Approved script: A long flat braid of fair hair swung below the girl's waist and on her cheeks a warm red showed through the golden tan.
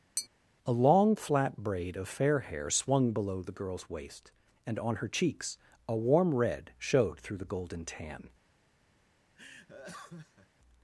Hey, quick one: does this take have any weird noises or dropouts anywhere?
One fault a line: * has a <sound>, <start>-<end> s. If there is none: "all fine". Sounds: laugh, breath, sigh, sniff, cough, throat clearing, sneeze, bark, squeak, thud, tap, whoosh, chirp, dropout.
* has a tap, 0.2-0.3 s
* has a laugh, 9.3-10.5 s